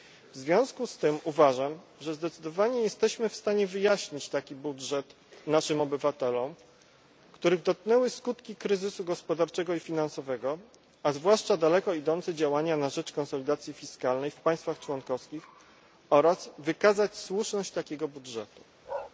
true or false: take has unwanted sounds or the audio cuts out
true